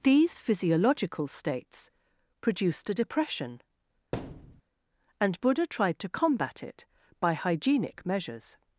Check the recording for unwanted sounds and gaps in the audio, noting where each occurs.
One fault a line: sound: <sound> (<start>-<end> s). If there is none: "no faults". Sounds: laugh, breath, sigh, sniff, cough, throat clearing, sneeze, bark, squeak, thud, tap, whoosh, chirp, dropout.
sound: thud (4.1-4.6 s)